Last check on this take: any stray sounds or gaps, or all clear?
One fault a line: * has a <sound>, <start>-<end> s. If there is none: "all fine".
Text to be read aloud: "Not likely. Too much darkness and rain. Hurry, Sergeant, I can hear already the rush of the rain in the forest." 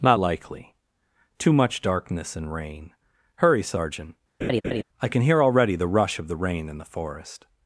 * has a laugh, 4.4-4.8 s